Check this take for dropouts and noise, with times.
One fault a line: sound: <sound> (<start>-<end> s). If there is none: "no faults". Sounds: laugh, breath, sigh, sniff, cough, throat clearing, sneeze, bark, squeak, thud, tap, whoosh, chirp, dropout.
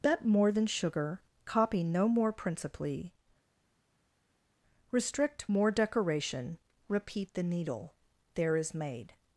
no faults